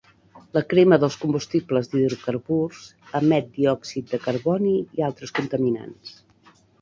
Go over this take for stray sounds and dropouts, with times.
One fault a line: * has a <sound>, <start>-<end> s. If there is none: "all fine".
all fine